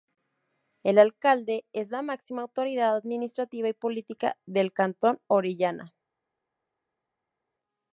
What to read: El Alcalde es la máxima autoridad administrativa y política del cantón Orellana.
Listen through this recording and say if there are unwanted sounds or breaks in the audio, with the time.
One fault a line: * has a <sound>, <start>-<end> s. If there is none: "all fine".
all fine